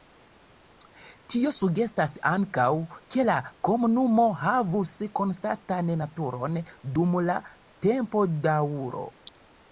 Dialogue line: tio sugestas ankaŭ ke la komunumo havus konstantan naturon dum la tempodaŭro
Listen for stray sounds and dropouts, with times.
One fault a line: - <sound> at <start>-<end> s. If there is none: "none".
none